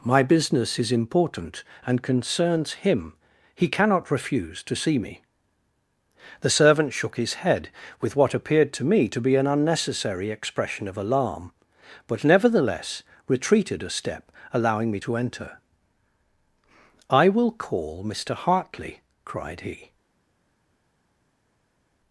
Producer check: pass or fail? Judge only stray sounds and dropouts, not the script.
pass